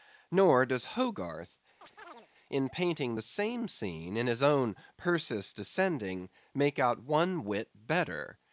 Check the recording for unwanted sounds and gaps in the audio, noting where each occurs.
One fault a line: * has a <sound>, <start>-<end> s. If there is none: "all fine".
* has a chirp, 1.8-2.3 s